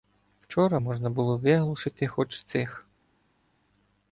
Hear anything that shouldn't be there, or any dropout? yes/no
no